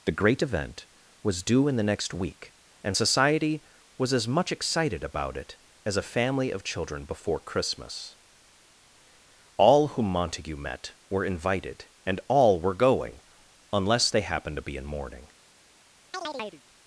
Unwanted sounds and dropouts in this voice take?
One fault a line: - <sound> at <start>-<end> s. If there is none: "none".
- chirp at 16.1-16.6 s